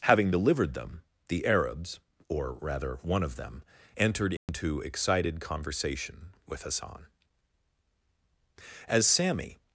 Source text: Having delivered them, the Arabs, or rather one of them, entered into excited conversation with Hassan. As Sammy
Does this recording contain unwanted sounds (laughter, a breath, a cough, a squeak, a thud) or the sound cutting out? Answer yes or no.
yes